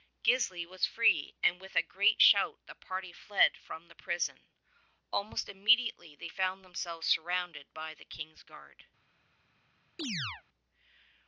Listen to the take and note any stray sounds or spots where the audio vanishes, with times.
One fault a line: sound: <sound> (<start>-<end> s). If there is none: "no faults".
sound: chirp (10.0-10.4 s)